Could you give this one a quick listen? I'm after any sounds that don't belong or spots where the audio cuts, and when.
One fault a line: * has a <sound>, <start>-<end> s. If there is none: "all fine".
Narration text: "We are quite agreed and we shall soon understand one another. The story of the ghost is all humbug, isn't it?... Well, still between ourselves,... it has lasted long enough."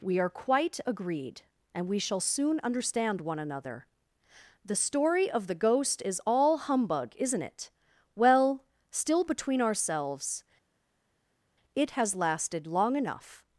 all fine